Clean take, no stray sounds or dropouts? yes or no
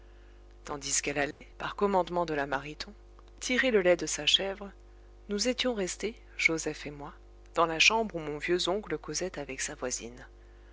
no